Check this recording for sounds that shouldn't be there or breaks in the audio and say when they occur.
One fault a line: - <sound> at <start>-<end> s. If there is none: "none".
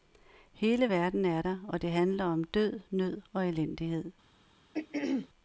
- throat clearing at 4.7-5.3 s